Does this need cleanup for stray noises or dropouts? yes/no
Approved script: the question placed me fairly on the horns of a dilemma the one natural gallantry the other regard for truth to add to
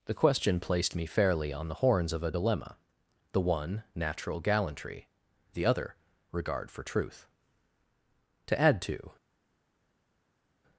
no